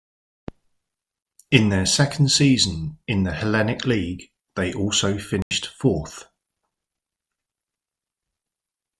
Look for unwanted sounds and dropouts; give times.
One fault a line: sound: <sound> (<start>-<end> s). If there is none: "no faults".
sound: dropout (5.4-5.5 s)